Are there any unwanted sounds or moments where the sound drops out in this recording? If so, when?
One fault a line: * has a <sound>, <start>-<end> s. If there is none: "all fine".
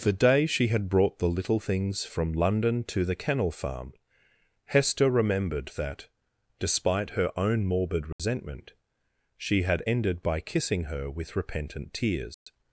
* has a dropout, 8.1-8.2 s
* has a dropout, 12.3-12.5 s